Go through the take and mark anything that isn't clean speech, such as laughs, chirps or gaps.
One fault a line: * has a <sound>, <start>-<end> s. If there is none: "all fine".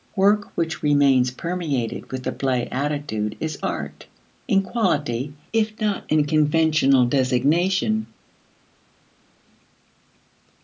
all fine